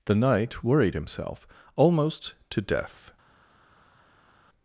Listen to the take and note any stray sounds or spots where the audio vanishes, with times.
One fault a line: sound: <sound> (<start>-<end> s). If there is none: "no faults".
no faults